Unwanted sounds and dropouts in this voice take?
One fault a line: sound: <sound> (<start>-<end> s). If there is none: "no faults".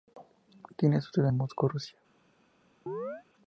sound: chirp (2.9-3.2 s)